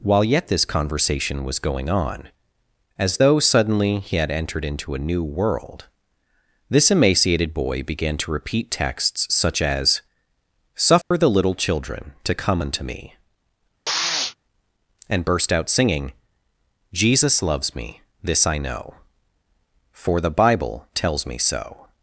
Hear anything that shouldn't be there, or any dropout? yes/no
yes